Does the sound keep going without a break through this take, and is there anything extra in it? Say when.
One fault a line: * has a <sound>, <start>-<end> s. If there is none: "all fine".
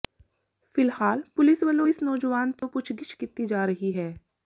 * has a dropout, 2.6-2.6 s